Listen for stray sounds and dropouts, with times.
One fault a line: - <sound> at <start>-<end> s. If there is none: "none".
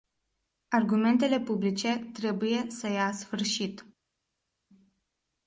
none